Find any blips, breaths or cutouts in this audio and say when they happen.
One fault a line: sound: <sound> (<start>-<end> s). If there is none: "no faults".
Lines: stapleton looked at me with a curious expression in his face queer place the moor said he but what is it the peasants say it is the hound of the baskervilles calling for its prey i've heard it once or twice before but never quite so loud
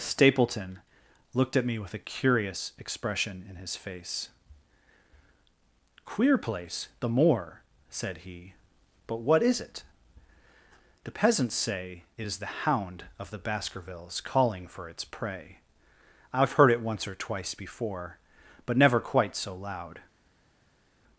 no faults